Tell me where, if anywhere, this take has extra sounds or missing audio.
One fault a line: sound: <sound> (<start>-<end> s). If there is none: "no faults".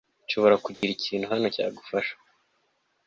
sound: dropout (0.7-0.8 s)